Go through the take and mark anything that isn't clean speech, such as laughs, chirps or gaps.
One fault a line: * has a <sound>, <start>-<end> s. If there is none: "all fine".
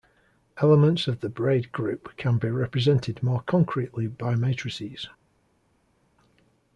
all fine